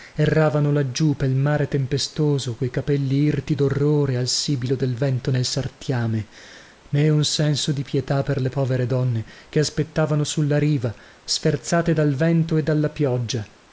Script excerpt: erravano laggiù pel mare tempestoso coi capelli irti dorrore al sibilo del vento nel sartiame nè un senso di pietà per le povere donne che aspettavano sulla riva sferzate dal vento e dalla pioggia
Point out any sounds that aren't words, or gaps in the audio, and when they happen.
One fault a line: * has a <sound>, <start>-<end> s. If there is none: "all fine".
all fine